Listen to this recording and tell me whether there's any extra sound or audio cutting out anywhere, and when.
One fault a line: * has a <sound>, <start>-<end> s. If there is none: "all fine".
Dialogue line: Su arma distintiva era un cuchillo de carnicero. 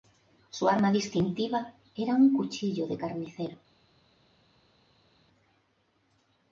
all fine